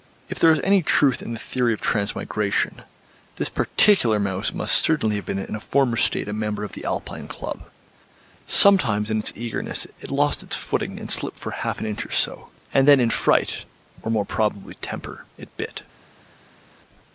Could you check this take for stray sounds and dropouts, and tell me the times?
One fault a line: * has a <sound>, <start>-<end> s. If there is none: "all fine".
all fine